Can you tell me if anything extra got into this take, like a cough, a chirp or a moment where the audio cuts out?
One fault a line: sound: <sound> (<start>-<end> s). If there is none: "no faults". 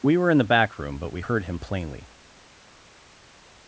no faults